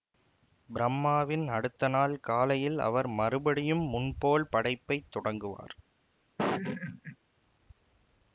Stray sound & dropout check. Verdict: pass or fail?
fail